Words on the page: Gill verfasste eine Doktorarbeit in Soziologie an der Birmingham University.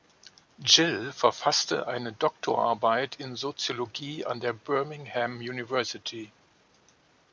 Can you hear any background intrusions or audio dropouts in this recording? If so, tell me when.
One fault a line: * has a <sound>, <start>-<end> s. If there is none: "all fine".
all fine